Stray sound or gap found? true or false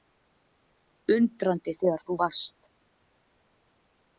false